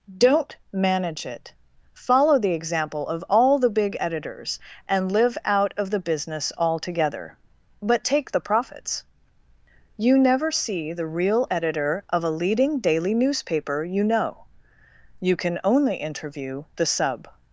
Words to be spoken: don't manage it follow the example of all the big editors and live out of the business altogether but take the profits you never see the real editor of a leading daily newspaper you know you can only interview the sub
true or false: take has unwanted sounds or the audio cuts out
false